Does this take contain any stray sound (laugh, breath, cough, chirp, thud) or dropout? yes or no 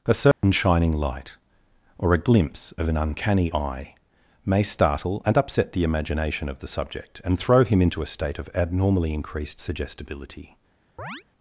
yes